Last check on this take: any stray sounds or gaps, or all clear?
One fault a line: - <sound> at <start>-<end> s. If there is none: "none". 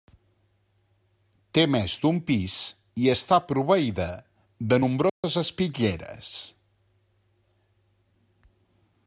- dropout at 5.1-5.2 s